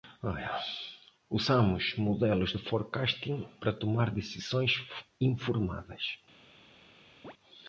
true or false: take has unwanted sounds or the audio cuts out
true